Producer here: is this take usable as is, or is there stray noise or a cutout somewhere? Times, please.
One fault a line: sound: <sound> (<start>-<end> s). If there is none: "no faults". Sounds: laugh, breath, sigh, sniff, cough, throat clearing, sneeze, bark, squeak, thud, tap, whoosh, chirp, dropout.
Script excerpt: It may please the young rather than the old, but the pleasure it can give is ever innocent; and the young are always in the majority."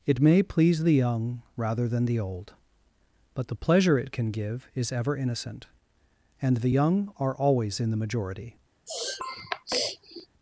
sound: sniff (8.9-10.3 s)